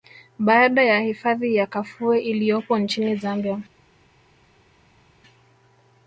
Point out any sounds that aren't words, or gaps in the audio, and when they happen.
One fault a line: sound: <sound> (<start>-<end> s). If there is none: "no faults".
no faults